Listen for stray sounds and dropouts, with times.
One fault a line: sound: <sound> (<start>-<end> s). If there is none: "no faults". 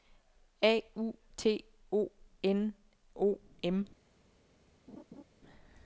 sound: laugh (4.9-5.2 s)